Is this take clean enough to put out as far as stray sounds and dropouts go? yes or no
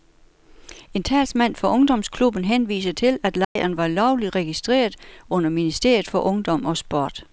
no